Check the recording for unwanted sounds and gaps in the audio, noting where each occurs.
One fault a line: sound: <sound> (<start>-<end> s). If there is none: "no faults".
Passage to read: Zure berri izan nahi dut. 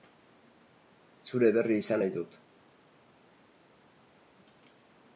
no faults